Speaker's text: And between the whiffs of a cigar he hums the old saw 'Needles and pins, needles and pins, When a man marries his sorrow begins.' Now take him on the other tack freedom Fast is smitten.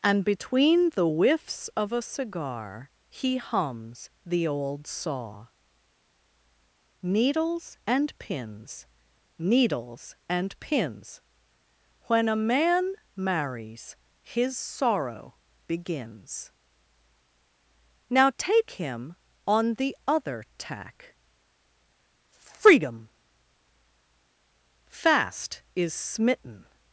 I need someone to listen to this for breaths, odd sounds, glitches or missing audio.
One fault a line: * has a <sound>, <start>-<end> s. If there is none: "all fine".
all fine